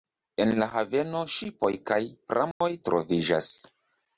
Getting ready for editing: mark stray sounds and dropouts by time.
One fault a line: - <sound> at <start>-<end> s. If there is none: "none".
- dropout at 2.5-2.6 s